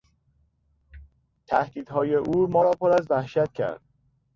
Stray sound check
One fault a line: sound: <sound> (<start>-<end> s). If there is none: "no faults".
no faults